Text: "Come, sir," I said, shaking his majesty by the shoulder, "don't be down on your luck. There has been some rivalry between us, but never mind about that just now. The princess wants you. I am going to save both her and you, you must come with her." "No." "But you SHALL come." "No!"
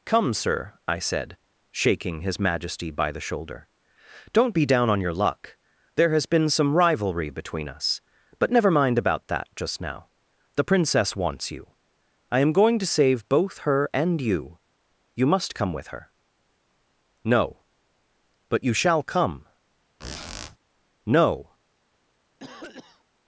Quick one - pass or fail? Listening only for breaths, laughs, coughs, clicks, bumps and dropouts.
fail